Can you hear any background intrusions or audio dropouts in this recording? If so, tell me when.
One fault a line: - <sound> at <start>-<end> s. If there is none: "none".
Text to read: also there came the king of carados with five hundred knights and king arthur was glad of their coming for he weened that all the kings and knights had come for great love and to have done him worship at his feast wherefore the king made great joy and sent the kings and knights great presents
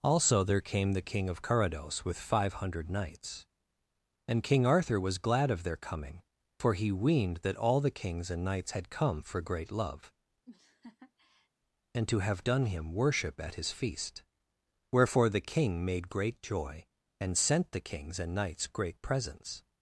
- laugh at 10.4-11.5 s